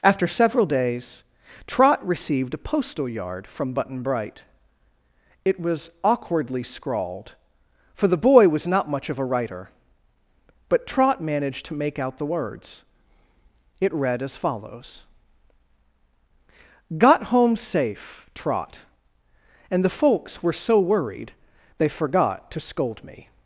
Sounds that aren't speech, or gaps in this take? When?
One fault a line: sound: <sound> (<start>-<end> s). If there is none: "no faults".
no faults